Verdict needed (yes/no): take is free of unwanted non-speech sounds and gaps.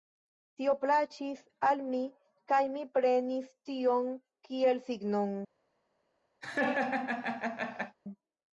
no